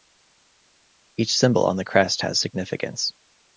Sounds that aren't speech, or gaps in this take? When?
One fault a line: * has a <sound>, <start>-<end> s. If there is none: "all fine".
all fine